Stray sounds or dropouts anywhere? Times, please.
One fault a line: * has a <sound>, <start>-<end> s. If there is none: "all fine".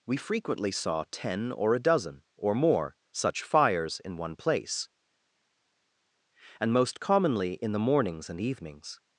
all fine